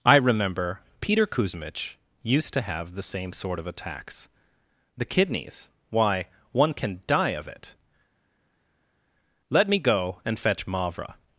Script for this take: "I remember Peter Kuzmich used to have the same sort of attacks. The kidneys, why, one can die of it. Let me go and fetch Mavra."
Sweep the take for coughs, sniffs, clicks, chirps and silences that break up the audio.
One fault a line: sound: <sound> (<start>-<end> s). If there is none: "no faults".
no faults